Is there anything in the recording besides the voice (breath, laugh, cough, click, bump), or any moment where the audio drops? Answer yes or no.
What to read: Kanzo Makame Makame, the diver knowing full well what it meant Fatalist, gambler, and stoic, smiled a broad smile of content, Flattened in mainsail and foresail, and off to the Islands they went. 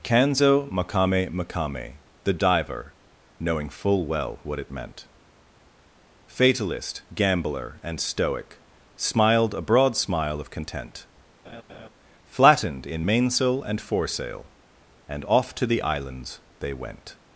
yes